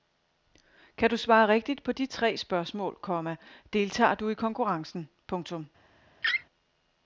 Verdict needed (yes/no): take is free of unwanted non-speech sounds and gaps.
no